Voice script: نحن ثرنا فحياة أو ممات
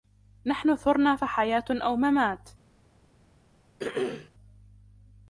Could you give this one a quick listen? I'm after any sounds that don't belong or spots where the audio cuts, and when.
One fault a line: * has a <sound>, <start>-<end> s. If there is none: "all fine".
* has a throat clearing, 3.8-4.3 s